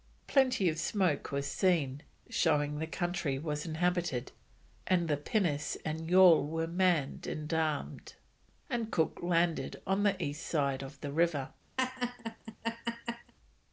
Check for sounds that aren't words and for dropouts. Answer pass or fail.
fail